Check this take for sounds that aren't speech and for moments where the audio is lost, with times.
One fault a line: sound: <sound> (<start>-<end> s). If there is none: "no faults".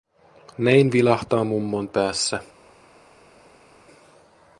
no faults